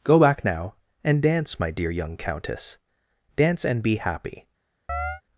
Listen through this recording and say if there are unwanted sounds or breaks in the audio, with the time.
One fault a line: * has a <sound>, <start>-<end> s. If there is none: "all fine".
* has a chirp, 4.9-5.2 s